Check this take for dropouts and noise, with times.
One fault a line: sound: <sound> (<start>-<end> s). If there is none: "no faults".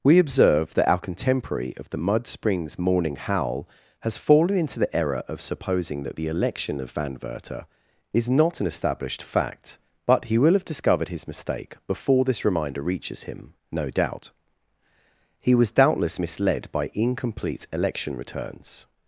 no faults